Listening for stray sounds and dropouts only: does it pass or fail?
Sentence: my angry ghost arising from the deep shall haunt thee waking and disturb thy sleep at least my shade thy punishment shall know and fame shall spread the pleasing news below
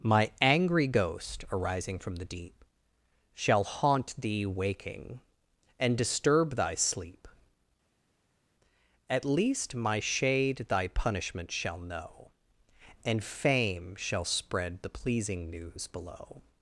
pass